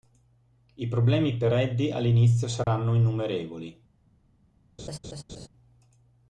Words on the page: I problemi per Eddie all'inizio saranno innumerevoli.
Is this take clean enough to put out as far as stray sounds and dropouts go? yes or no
no